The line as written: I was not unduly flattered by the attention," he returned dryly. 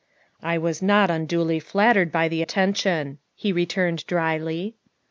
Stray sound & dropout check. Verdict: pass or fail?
pass